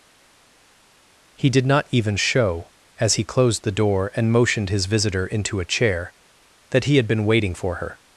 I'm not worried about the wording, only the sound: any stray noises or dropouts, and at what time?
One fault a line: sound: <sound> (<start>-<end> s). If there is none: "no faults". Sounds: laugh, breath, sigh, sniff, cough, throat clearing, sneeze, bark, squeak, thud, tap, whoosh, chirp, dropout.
no faults